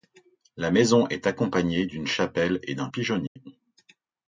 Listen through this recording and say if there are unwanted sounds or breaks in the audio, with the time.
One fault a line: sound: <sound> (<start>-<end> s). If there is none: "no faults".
sound: dropout (3.3-3.4 s)